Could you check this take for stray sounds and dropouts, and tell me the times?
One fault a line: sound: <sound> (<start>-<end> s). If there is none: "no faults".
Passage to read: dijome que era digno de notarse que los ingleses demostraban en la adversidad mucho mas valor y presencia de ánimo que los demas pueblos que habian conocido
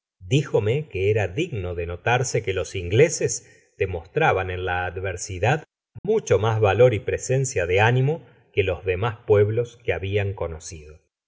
sound: dropout (6.0-6.0 s)